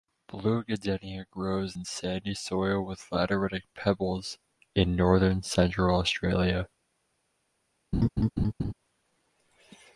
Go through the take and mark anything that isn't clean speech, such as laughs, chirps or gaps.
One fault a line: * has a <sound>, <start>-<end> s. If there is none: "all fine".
* has a laugh, 7.9-8.7 s